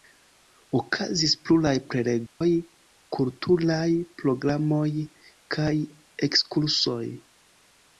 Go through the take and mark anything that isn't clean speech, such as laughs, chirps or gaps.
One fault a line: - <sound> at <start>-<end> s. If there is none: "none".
- dropout at 2.3-2.4 s